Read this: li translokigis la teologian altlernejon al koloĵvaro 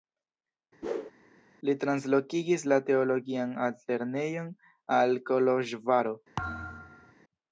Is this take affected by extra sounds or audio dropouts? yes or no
yes